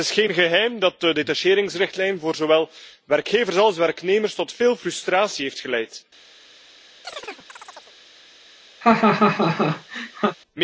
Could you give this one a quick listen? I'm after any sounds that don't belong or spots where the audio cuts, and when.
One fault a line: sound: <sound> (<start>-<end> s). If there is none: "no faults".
sound: chirp (7.0-8.0 s)
sound: laugh (8.8-10.4 s)